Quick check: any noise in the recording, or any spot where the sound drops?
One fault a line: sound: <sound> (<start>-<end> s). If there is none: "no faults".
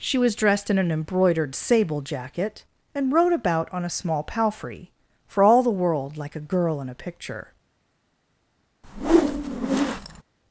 sound: whoosh (8.8-10.2 s)